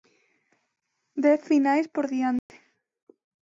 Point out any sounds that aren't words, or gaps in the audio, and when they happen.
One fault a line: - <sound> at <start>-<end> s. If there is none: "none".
- dropout at 2.4-2.5 s